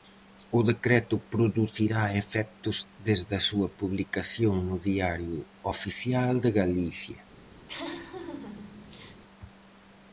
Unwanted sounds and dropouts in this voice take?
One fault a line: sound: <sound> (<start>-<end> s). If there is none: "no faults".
sound: laugh (7.7-9.2 s)